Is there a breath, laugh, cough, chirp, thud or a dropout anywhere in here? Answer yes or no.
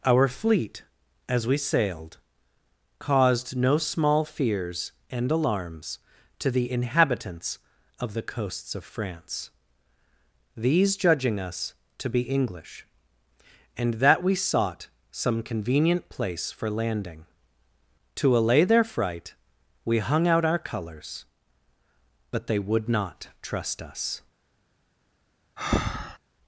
yes